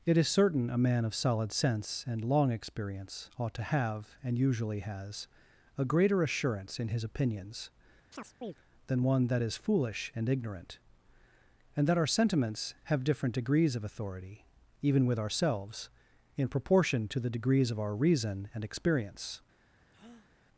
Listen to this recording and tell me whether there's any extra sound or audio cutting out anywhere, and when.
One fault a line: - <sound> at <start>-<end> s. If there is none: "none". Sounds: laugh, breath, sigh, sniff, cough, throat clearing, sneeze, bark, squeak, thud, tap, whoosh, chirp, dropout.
- chirp at 8.1-8.6 s
- breath at 19.9-20.3 s